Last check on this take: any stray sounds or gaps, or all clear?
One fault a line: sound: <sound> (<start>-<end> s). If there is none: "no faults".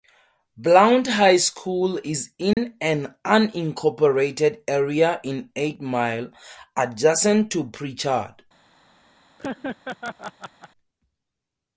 sound: dropout (2.5-2.6 s)
sound: laugh (9.4-10.7 s)